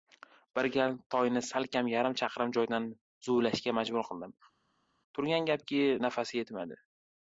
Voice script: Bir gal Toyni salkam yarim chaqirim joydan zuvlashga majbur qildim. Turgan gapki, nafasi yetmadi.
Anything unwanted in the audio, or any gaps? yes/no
no